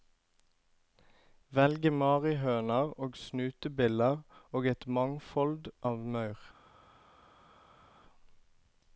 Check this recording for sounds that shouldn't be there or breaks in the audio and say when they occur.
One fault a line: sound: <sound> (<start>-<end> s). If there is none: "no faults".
no faults